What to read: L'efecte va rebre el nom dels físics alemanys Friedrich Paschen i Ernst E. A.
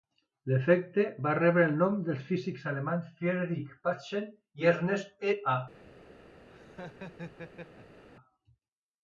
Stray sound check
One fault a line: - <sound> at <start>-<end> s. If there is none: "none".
- laugh at 6.5-8.0 s